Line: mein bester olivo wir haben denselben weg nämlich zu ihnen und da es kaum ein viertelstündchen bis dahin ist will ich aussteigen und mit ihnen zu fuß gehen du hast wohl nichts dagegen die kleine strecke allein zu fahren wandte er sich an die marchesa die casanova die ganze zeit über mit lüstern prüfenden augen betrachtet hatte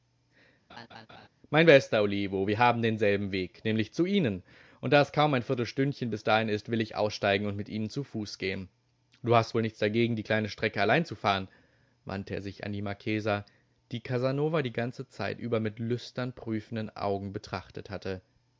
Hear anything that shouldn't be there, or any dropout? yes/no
yes